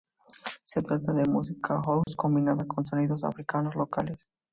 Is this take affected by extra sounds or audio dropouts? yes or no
yes